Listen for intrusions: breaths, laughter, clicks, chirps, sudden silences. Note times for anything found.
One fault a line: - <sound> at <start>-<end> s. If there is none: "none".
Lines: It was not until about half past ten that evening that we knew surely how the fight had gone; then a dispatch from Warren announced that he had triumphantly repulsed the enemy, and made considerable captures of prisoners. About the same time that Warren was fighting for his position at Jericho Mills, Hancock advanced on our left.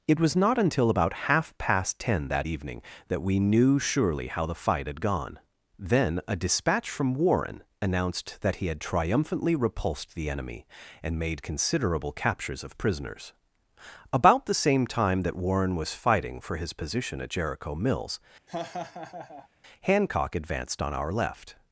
- laugh at 18.5-19.5 s